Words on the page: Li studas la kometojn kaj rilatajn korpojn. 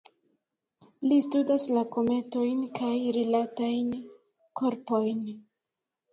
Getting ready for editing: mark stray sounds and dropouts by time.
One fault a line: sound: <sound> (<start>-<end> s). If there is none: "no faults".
no faults